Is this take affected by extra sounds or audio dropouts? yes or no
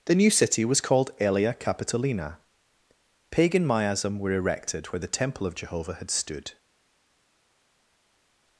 no